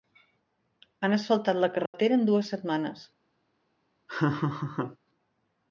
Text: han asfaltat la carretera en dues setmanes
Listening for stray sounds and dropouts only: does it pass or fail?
fail